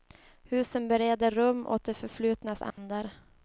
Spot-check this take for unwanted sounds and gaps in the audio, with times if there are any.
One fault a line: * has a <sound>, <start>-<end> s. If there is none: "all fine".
* has a dropout, 2.7-2.8 s